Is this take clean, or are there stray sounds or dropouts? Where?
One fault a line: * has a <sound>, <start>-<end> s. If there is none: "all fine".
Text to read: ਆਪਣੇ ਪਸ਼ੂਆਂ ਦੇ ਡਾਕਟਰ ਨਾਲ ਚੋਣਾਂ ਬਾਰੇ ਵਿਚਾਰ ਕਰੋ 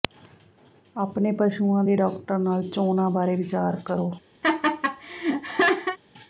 * has a laugh, 4.4-6.0 s